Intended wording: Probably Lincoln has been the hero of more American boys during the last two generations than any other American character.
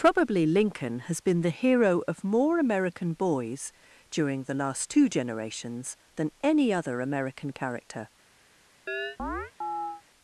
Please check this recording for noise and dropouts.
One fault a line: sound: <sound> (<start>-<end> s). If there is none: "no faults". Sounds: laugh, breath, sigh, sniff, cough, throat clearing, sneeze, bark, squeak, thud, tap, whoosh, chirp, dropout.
sound: chirp (8.9-10.0 s)